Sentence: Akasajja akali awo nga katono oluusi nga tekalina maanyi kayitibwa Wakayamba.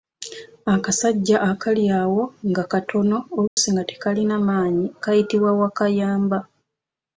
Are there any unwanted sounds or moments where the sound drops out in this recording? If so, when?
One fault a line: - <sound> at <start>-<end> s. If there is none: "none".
- dropout at 3.5-3.6 s